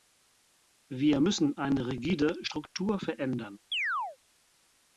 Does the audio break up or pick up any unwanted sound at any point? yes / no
yes